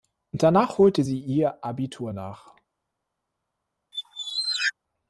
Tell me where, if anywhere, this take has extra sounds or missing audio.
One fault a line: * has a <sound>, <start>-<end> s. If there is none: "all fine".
* has a squeak, 3.9-4.7 s